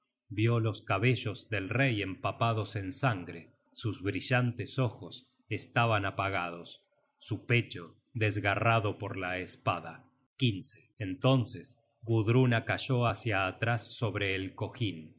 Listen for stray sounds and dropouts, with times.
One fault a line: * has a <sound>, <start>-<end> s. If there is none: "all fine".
all fine